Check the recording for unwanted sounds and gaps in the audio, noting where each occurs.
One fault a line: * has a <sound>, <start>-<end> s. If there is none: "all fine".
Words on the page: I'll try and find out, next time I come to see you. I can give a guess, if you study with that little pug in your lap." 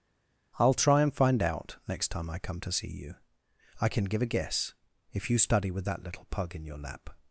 all fine